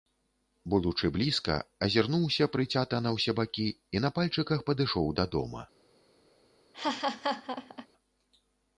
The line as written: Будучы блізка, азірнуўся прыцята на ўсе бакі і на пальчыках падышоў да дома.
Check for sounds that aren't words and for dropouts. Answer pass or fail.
fail